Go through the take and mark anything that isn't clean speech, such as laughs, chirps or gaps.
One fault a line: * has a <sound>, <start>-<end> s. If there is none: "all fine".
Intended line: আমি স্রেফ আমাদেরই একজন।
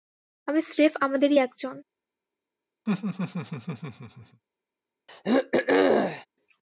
* has a laugh, 2.9-4.4 s
* has a throat clearing, 5.1-6.3 s